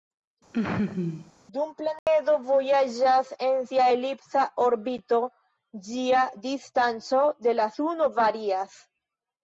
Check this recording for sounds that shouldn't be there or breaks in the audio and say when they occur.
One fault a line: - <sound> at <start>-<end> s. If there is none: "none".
- laugh at 0.5-1.3 s
- dropout at 2.0-2.1 s